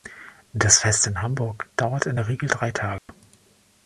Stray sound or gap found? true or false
true